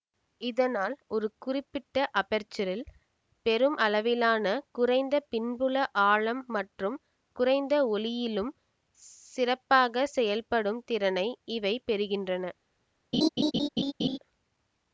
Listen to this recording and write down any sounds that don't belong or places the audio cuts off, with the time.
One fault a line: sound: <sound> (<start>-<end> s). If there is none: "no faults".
sound: laugh (13.1-14.2 s)